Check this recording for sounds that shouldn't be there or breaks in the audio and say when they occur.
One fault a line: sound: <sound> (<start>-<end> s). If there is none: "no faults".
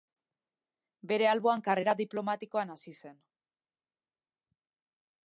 no faults